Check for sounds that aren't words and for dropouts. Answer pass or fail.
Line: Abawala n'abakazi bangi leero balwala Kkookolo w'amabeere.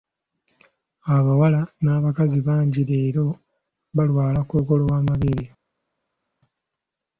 pass